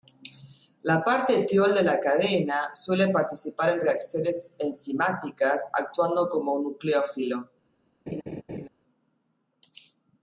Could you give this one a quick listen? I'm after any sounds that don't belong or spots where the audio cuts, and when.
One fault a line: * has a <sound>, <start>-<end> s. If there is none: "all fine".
* has a laugh, 8.1-8.7 s